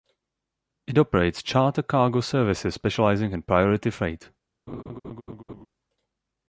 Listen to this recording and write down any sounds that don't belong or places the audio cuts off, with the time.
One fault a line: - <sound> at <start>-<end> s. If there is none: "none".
- laugh at 4.7-5.7 s